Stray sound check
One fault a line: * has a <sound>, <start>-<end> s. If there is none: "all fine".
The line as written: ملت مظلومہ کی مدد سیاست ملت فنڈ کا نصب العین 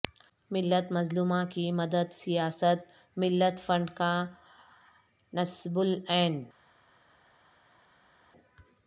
all fine